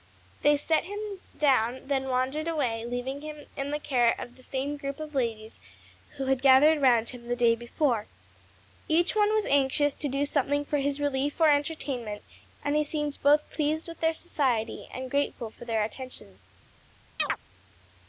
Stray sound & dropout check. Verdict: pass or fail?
fail